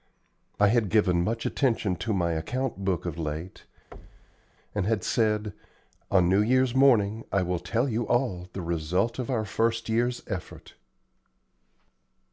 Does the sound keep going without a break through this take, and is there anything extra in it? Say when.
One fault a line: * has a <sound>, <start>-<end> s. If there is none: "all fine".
* has a thud, 3.9-4.5 s